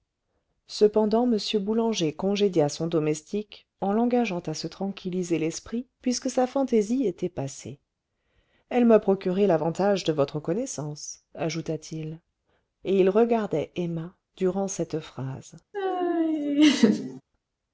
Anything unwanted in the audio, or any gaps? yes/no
yes